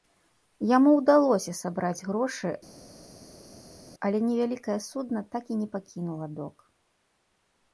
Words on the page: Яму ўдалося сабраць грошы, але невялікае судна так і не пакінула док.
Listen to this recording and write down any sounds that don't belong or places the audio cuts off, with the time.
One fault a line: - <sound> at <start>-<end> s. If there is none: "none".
none